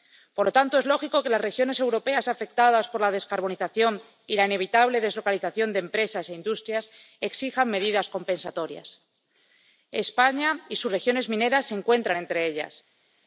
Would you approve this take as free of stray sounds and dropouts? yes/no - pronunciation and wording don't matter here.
yes